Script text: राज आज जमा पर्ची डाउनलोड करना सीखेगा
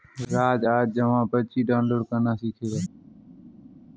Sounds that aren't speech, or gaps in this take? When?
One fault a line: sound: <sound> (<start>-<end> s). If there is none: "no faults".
no faults